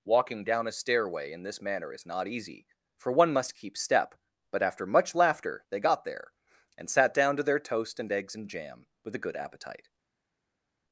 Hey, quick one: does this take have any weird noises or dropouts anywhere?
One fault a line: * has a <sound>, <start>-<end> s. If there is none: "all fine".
all fine